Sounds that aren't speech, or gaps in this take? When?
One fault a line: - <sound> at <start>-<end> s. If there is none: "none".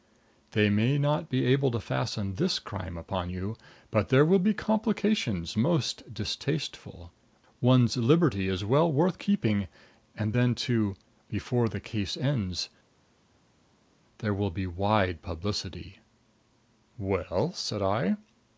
none